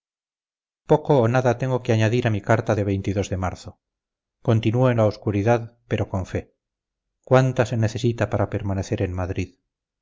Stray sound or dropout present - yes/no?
no